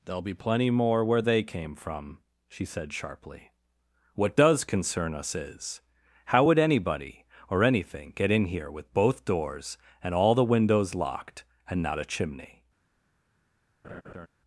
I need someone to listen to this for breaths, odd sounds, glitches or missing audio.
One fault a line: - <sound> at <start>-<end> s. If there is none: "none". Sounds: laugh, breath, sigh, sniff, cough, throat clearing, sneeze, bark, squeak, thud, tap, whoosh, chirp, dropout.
- laugh at 13.8-14.3 s